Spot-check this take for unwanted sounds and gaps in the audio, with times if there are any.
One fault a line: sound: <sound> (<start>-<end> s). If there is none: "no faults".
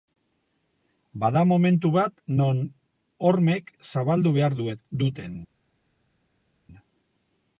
no faults